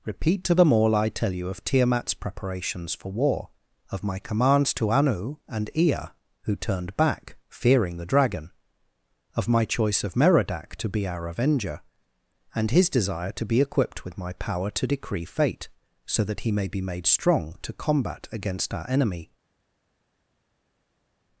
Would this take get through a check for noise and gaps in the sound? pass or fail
pass